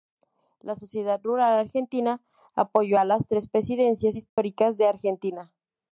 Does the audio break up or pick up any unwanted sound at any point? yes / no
yes